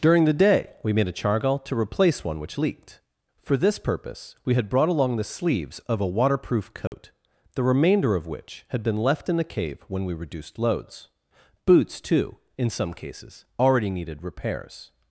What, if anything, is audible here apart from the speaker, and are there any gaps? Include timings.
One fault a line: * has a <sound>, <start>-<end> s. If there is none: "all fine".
* has a dropout, 6.9-6.9 s